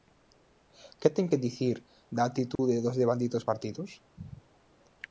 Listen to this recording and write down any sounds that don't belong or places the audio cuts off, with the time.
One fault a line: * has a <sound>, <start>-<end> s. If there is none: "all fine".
* has a dropout, 2.6-2.6 s